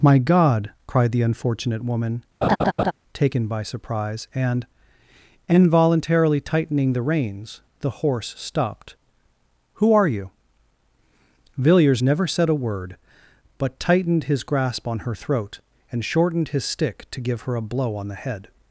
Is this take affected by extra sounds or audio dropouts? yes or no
yes